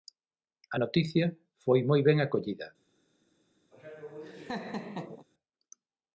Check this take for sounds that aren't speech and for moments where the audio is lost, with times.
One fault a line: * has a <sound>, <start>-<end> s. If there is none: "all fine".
* has a laugh, 3.7-5.3 s